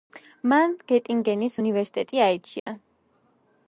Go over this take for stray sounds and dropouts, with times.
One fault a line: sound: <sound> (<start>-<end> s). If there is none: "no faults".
sound: dropout (2.6-2.7 s)